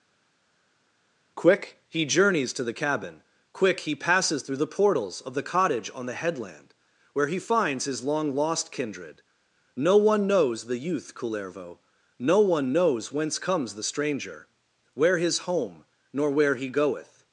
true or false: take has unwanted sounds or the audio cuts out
false